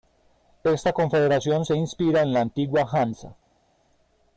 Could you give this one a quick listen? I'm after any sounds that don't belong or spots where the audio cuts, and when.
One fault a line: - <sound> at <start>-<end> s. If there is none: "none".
none